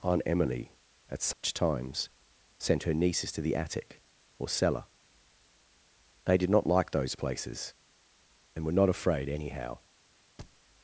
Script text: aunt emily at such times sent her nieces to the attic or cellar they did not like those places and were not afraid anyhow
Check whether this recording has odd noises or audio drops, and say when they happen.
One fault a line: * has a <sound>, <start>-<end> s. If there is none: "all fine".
* has a dropout, 1.3-1.4 s
* has a thud, 10.4-10.6 s